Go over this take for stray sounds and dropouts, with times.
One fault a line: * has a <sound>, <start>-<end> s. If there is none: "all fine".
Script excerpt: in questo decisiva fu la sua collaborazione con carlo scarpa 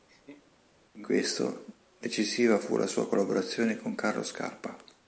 * has a laugh, 0.1-0.6 s